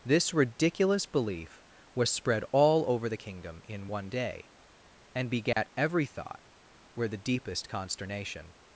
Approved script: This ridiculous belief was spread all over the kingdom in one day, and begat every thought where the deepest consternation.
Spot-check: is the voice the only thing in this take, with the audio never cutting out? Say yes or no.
no